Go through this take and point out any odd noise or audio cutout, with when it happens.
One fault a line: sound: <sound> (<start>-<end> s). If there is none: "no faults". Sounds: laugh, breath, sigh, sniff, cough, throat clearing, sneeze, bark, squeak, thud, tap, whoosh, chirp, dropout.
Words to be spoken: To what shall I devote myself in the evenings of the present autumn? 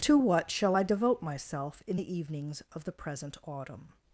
no faults